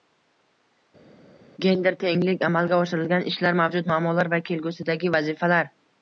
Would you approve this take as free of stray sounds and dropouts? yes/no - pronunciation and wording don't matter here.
yes